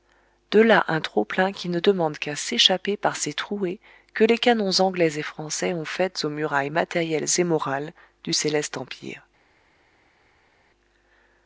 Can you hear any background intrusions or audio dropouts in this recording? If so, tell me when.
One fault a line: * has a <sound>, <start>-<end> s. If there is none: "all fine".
all fine